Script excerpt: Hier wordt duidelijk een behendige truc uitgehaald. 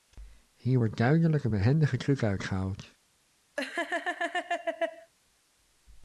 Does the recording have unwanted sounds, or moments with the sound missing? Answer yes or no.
yes